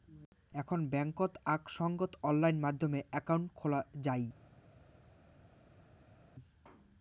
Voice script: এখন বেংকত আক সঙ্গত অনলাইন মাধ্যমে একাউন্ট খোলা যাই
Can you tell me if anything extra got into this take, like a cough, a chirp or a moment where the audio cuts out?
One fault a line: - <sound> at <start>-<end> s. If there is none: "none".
none